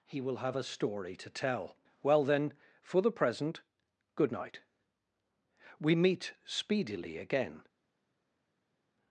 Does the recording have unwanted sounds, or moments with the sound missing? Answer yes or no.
no